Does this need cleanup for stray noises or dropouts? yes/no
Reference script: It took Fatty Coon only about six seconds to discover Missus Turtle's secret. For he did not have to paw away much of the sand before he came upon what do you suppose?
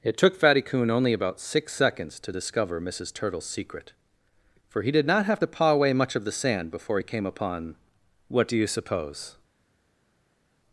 no